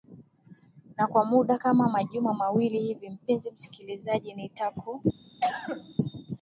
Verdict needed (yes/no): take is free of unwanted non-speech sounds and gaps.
no